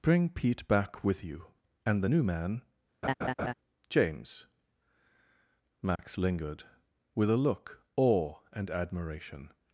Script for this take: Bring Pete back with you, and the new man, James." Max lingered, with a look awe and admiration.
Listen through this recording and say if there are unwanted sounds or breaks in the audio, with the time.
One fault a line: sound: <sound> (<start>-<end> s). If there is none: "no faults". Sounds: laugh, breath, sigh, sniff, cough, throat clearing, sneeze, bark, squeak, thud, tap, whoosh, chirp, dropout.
sound: laugh (3.0-3.5 s)
sound: dropout (6.0-6.0 s)